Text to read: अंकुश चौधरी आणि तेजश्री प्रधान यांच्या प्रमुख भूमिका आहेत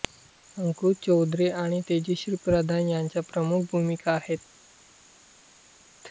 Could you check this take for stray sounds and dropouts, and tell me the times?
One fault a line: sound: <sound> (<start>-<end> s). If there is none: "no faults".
no faults